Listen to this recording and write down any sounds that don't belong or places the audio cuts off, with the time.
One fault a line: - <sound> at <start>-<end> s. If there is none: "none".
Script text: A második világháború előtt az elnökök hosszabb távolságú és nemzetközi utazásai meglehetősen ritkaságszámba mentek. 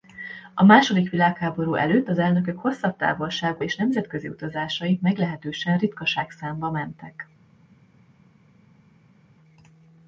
none